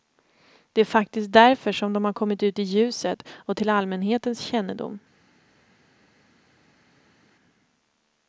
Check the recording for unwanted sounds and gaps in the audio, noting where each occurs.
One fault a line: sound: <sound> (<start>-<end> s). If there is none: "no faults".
no faults